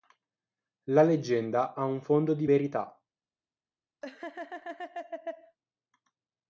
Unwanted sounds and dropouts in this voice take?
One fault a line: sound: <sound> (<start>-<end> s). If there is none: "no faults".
sound: laugh (4.0-5.6 s)